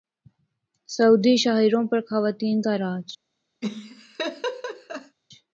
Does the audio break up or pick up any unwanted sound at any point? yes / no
yes